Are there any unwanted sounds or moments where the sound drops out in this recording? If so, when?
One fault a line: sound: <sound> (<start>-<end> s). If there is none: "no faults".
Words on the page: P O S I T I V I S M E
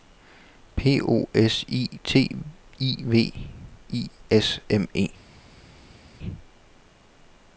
no faults